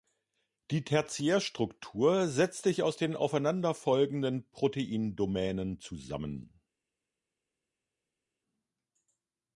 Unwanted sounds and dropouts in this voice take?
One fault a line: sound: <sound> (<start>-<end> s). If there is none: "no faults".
no faults